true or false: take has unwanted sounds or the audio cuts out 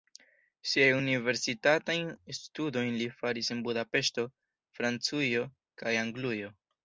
false